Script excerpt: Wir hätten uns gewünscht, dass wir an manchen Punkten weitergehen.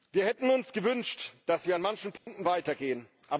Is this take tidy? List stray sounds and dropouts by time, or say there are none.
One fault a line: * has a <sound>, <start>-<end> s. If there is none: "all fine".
* has a dropout, 2.2-2.3 s